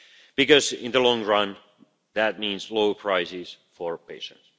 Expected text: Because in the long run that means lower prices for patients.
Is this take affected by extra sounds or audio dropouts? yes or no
no